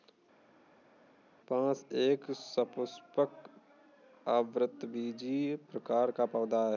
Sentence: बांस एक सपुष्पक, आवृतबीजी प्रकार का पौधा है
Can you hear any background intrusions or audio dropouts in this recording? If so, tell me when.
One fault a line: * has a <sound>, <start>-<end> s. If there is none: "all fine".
all fine